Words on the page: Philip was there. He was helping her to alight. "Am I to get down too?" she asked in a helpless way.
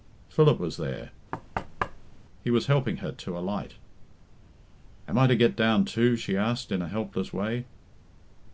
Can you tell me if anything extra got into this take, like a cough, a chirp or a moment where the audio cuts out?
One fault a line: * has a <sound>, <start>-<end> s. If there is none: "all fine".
* has a thud, 1.3-2.2 s